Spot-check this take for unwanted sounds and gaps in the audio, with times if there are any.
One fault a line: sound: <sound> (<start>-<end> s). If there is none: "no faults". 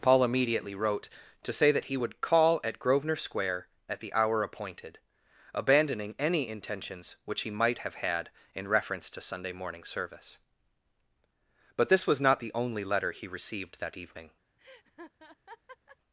sound: laugh (14.6-16.0 s)